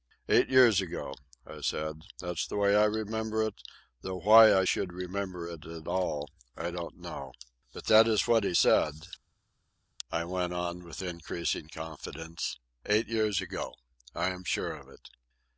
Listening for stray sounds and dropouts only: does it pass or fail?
pass